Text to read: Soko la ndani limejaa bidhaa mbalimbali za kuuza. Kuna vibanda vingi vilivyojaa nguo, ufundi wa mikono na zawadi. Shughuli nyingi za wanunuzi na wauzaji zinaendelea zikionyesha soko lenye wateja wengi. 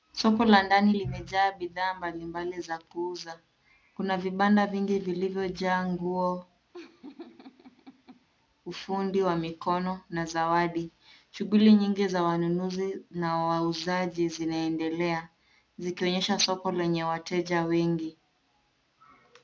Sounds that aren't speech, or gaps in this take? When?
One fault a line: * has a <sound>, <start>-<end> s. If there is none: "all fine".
* has a laugh, 6.7-8.3 s